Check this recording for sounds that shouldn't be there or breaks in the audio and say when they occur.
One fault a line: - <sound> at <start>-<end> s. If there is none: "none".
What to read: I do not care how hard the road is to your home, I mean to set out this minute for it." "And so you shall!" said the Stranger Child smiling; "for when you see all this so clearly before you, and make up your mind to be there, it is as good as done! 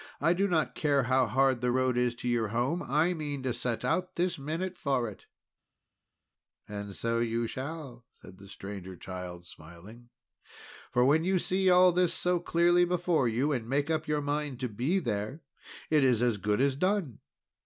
none